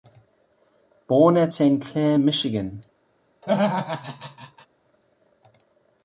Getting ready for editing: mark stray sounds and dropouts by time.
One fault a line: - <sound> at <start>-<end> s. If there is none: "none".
- laugh at 3.4-4.7 s